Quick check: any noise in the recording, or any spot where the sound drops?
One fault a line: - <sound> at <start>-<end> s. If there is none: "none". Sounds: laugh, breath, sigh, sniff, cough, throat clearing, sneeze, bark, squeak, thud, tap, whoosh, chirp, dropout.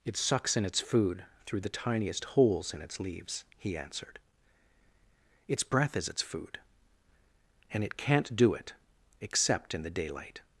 none